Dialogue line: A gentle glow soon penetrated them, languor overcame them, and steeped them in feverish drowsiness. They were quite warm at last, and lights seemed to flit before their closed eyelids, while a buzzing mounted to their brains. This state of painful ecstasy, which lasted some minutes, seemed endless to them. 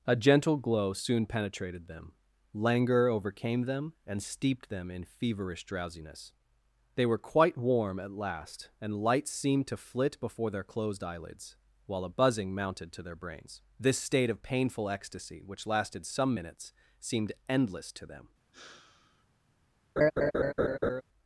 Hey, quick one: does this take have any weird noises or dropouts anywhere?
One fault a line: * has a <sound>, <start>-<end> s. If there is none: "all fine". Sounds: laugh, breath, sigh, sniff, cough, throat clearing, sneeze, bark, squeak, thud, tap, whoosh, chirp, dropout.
* has a sigh, 18.5-19.3 s
* has a laugh, 20.0-21.0 s